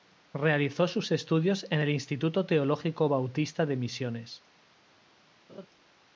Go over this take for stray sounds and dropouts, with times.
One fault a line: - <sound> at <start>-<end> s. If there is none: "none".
- laugh at 5.5-5.7 s